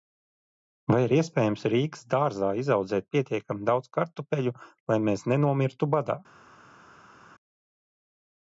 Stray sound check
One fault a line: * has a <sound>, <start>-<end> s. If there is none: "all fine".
all fine